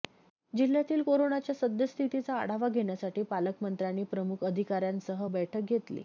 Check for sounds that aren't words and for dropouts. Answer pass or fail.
pass